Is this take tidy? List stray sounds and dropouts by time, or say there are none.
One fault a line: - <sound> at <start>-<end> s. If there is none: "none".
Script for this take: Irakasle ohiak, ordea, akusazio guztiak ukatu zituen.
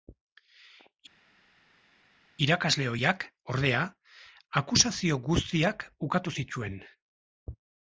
none